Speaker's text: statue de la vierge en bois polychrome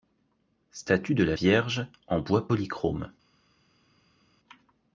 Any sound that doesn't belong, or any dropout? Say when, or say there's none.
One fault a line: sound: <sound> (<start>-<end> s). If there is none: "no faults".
no faults